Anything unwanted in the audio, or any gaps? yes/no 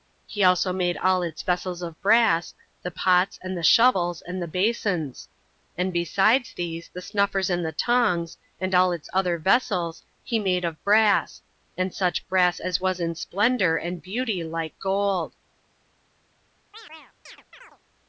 yes